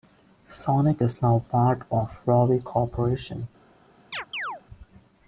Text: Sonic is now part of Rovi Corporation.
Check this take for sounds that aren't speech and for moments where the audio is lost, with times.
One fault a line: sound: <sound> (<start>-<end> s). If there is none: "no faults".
sound: chirp (4.1-4.6 s)